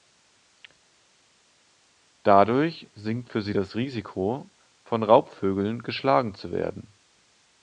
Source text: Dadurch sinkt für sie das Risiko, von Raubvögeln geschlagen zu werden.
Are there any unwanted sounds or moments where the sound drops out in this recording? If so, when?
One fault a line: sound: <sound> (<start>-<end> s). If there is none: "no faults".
no faults